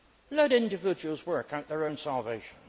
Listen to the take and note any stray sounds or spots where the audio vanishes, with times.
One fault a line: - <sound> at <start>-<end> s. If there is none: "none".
none